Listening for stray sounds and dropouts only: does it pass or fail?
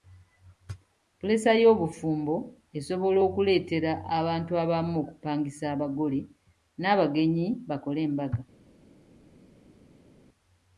pass